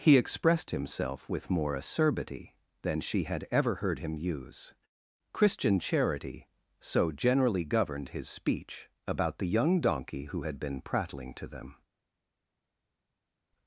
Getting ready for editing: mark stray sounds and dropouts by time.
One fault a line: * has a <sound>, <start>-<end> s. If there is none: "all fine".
all fine